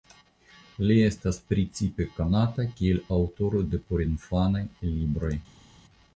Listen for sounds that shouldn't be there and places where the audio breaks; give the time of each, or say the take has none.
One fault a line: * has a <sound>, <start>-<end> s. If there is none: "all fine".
all fine